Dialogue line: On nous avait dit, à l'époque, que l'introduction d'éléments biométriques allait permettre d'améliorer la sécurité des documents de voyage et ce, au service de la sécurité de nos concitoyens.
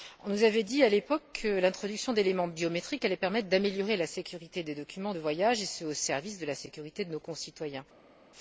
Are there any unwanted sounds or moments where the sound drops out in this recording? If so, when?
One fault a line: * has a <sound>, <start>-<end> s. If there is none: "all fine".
all fine